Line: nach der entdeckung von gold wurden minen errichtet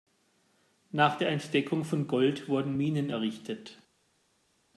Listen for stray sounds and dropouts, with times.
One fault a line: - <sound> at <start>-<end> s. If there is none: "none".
none